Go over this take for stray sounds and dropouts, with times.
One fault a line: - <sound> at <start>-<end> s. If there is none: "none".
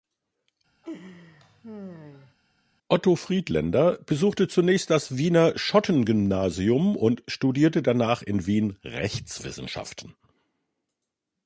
- laugh at 0.8-2.3 s